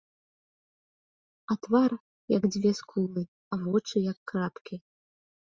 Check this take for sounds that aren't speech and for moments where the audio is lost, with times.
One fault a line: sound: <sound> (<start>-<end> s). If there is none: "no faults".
no faults